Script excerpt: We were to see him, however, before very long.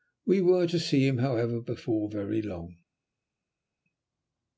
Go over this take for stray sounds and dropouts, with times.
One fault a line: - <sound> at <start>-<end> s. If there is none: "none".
none